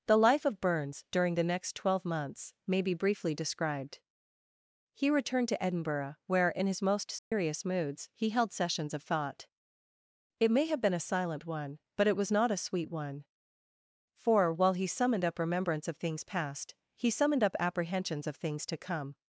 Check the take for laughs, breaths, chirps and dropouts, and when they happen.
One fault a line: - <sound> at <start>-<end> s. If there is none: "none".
- dropout at 7.2-7.3 s